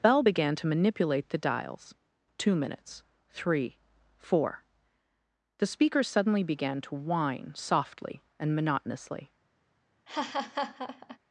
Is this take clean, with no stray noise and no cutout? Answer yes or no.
no